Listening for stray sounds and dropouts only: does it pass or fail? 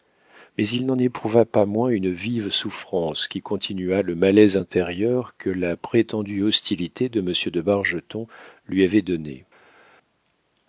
pass